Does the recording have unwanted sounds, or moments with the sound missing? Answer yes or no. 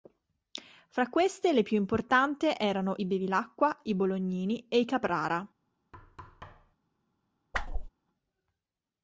yes